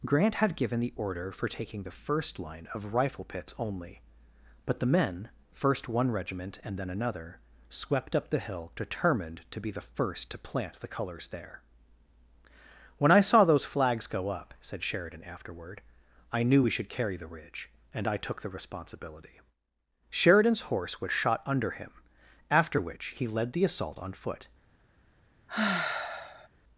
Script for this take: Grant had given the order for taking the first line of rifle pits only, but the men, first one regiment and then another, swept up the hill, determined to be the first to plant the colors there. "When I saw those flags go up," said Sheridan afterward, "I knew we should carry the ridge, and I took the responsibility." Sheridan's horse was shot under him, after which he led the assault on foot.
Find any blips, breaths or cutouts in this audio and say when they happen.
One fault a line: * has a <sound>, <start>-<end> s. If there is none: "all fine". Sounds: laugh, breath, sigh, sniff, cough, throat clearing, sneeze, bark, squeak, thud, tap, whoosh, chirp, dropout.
* has a sigh, 25.5-26.5 s